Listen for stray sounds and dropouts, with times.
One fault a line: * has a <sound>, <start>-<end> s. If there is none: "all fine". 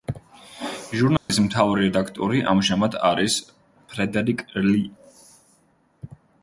* has a dropout, 1.2-1.3 s